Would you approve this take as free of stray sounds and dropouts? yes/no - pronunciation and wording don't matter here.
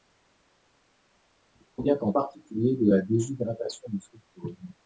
yes